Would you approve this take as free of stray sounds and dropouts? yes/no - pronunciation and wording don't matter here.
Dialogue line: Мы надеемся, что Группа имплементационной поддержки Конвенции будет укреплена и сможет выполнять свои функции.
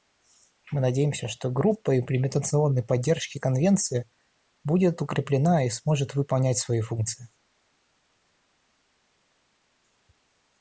yes